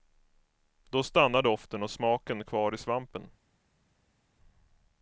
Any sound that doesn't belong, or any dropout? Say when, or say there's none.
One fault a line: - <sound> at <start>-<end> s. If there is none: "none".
none